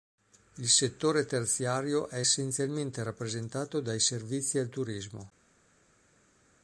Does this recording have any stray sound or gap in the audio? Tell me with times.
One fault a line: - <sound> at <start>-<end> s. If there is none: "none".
none